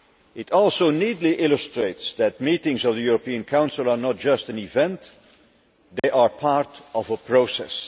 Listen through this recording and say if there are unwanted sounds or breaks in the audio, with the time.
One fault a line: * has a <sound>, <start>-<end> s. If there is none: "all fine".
* has a dropout, 6.0-6.0 s